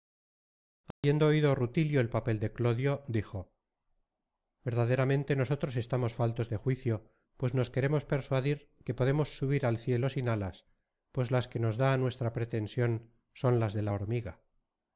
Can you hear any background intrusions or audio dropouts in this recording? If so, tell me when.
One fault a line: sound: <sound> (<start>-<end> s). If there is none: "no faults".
sound: dropout (0.9-1.0 s)